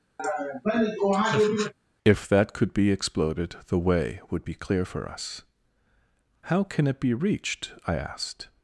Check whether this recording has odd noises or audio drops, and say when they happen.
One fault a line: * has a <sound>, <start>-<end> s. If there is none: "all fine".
* has a laugh, 0.2-1.7 s